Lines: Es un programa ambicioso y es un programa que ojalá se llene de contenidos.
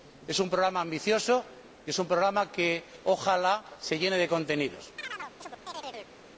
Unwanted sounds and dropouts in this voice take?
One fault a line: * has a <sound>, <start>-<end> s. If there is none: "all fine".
* has a chirp, 5.0-6.1 s